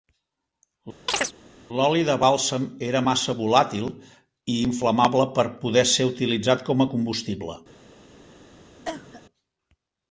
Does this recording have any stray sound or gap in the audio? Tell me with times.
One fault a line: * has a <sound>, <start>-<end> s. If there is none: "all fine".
* has a chirp, 1.1-1.3 s
* has a cough, 8.8-9.2 s